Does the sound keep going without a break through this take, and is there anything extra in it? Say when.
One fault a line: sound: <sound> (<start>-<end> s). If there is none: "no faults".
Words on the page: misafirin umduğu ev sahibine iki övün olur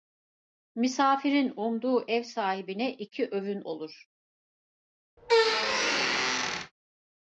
sound: squeak (5.2-6.7 s)